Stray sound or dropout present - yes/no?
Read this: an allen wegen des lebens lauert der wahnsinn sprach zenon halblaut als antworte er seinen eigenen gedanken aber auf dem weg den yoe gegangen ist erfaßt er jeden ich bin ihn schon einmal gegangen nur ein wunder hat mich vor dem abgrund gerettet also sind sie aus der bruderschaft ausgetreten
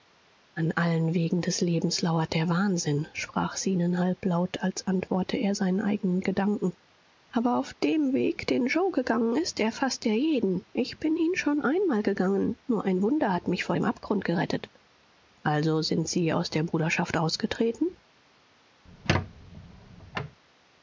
yes